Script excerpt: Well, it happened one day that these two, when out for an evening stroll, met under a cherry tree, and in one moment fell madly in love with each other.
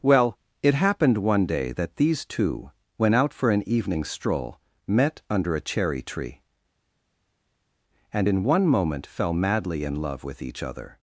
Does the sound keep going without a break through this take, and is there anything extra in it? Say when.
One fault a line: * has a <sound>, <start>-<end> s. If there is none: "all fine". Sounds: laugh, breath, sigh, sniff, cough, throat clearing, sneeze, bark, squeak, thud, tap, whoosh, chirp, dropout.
all fine